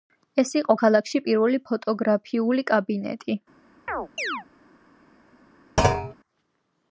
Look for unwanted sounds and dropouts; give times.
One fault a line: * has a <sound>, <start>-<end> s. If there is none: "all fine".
* has a chirp, 3.9-4.5 s
* has a thud, 5.8-6.1 s